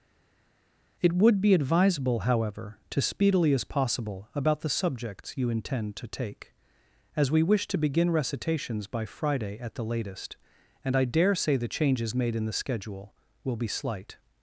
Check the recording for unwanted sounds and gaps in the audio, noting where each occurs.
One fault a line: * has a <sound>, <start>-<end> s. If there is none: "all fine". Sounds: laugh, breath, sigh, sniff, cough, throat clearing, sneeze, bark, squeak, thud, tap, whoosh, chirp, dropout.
all fine